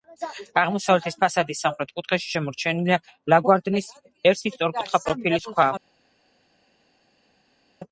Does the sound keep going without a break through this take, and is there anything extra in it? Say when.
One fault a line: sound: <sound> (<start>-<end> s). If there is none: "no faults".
no faults